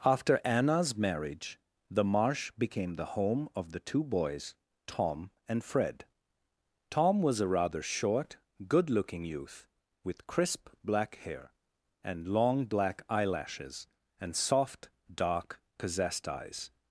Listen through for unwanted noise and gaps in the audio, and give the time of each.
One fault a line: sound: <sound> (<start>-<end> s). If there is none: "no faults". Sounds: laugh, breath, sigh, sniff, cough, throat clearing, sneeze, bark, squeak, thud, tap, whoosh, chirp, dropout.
no faults